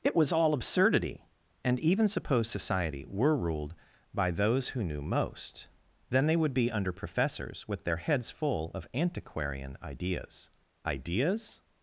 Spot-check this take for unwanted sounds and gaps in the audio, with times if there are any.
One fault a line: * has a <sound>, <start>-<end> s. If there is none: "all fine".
all fine